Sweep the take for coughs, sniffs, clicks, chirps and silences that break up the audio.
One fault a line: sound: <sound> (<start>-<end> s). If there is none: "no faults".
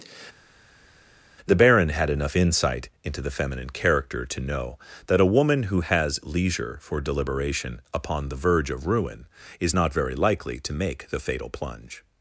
no faults